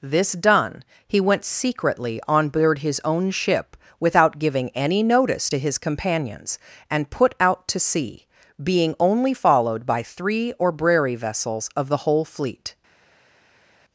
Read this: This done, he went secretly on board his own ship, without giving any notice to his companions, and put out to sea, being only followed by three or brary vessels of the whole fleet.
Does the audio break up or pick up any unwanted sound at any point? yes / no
no